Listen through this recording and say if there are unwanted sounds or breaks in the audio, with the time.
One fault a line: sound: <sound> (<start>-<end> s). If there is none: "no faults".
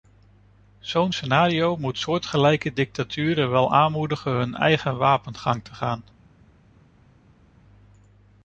no faults